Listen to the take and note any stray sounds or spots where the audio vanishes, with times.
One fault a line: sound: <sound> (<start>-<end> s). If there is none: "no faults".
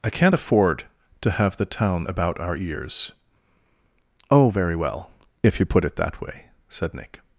no faults